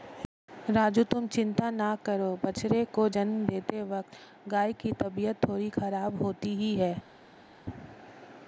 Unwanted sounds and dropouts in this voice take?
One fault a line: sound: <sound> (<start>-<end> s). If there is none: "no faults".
no faults